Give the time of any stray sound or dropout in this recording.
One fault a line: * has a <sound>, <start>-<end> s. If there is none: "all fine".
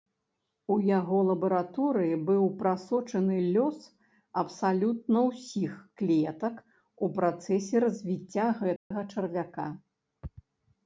* has a dropout, 8.8-8.9 s